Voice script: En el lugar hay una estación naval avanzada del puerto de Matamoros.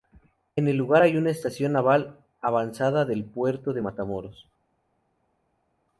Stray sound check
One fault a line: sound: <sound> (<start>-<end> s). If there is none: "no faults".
no faults